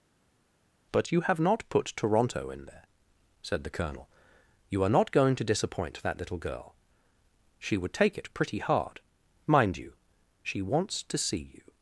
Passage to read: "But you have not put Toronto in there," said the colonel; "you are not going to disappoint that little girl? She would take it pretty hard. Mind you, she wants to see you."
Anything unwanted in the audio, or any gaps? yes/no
no